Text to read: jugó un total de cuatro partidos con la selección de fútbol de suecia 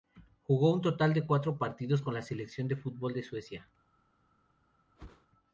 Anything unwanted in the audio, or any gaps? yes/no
yes